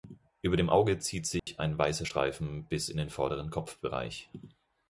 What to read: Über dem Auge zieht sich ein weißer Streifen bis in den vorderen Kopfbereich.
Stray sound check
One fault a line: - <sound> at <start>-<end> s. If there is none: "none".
- dropout at 1.4-1.5 s